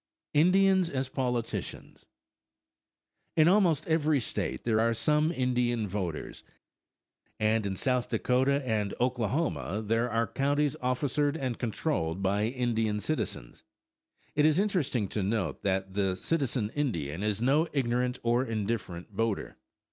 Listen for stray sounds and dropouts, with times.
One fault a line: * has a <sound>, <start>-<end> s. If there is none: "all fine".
all fine